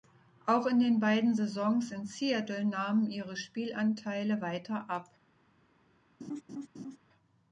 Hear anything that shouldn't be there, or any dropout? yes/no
yes